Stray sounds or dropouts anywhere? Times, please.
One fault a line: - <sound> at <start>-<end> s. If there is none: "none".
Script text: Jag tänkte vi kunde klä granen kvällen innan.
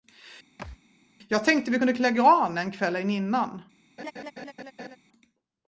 - thud at 0.6-0.8 s
- laugh at 4.0-5.0 s